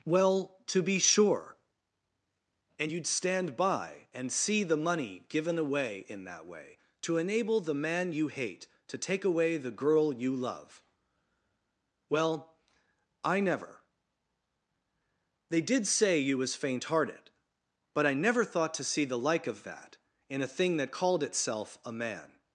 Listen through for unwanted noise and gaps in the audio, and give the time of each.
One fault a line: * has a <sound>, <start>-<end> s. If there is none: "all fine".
all fine